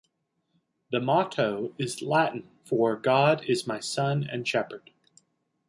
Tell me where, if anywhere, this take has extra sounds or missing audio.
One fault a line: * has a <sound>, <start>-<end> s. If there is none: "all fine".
all fine